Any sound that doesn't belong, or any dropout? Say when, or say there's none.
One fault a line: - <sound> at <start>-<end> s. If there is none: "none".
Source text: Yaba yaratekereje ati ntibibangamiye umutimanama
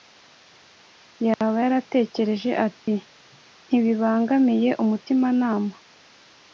- dropout at 1.3-1.4 s
- dropout at 2.8-2.9 s